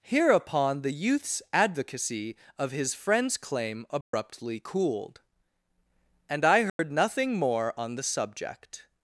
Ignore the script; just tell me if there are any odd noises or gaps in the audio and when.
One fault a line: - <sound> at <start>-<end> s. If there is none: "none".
- dropout at 4.0-4.1 s
- dropout at 6.7-6.8 s